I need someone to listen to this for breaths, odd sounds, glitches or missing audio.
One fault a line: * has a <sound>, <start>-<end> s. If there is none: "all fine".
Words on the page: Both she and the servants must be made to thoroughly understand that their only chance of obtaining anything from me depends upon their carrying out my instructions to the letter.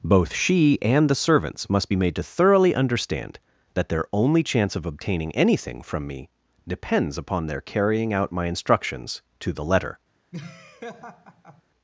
* has a laugh, 10.3-11.6 s